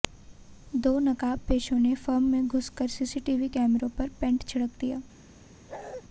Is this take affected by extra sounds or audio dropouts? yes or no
yes